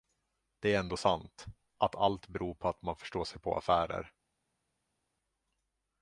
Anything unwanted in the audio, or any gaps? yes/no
no